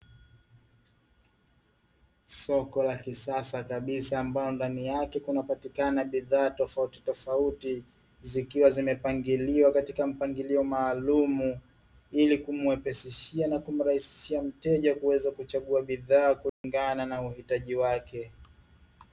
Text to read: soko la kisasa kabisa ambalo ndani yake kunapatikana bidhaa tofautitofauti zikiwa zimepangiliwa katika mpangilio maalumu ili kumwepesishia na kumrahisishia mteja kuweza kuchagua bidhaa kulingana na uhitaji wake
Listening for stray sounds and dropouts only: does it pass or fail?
fail